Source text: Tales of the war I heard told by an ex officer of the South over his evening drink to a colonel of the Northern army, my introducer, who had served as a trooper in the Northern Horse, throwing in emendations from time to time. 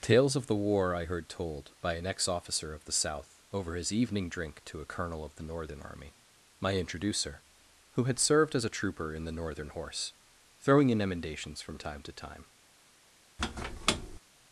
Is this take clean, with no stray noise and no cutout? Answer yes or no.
no